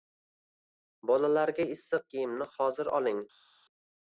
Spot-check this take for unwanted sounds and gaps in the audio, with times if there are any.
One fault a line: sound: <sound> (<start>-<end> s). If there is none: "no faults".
no faults